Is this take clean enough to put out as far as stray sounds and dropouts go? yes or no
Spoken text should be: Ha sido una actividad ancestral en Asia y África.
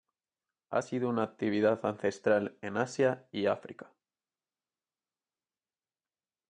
yes